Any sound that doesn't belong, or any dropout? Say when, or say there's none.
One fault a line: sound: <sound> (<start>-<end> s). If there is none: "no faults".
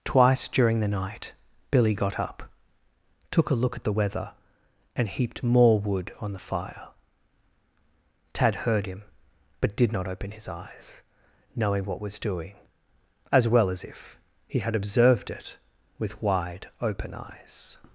no faults